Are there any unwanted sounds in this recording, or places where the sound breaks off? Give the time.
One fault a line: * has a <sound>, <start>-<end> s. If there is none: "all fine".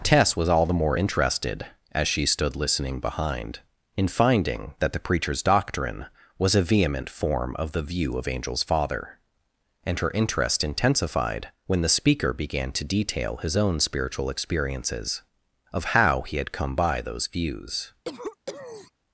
* has a cough, 18.0-18.9 s